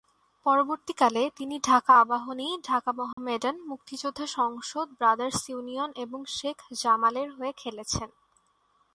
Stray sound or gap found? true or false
true